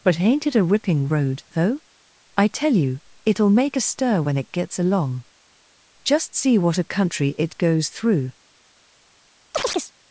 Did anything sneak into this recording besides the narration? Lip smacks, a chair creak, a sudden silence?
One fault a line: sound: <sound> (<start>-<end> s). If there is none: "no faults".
sound: chirp (9.5-9.9 s)